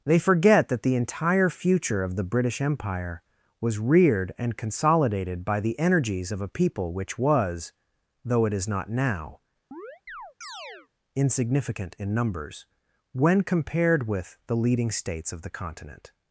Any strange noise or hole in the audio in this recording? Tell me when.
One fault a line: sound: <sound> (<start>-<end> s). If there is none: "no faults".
sound: chirp (9.7-10.9 s)